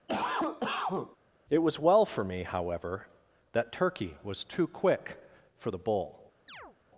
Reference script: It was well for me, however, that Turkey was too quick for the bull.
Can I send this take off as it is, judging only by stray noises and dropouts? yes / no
no